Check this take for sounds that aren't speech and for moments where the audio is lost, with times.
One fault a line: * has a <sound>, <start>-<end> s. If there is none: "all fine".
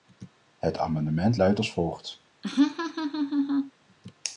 * has a laugh, 2.4-3.7 s